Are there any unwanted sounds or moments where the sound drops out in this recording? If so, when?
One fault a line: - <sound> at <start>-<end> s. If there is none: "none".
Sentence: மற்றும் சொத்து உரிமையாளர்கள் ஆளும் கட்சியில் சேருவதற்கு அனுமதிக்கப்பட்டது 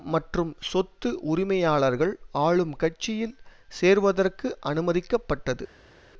none